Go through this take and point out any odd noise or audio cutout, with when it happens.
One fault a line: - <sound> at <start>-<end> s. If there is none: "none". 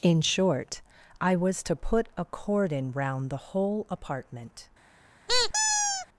- squeak at 5.3-6.1 s